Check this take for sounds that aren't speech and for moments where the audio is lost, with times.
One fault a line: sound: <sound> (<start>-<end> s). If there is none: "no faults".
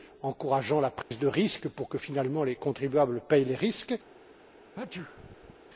sound: dropout (1.0-1.1 s)
sound: sneeze (4.7-5.6 s)